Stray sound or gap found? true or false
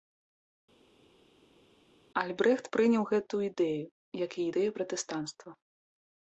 false